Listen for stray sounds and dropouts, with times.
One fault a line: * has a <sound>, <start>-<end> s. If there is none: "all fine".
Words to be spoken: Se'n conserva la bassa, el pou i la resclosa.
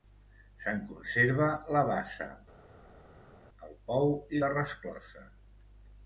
all fine